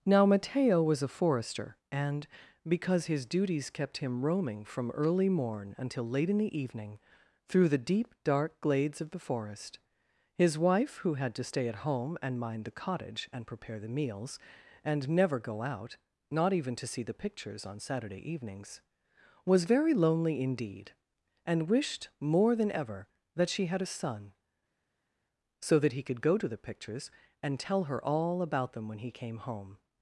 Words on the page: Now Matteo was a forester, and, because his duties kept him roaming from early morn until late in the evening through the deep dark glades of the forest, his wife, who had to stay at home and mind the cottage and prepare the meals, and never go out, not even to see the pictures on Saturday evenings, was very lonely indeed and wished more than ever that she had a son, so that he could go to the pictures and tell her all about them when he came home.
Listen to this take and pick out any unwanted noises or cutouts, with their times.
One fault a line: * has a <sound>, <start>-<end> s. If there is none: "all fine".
all fine